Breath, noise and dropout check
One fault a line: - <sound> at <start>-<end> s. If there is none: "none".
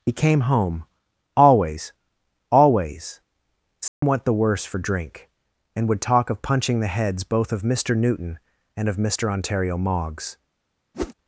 - dropout at 3.9-4.0 s
- whoosh at 10.9-11.1 s